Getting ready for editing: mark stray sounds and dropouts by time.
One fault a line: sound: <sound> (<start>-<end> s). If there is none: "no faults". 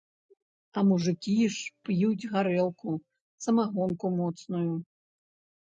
no faults